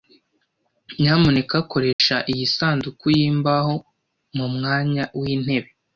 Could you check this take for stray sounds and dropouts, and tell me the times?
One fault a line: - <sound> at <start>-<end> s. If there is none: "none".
- dropout at 1.9-2.0 s